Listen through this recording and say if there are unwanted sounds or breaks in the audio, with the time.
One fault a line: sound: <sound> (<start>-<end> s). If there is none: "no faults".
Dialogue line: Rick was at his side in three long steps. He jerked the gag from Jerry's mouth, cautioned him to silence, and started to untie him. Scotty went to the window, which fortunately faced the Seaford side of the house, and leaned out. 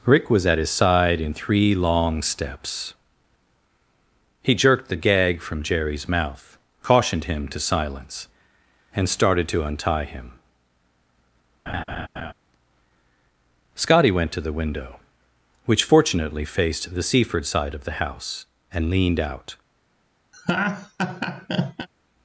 sound: laugh (11.7-12.3 s)
sound: laugh (20.3-21.9 s)